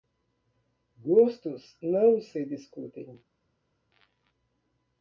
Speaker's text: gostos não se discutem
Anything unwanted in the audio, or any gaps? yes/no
no